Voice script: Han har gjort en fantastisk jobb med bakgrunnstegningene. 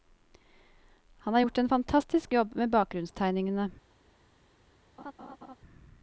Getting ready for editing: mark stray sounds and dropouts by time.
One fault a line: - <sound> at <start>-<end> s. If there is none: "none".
- laugh at 5.0-5.6 s